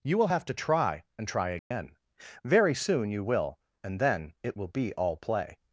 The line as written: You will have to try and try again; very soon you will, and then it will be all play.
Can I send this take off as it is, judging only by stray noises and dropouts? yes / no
no